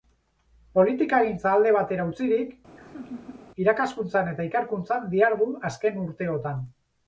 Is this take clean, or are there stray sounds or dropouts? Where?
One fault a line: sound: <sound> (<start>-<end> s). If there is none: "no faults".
sound: laugh (2.8-3.5 s)